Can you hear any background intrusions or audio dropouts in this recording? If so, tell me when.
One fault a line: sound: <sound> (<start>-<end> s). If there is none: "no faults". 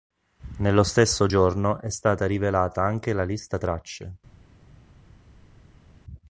no faults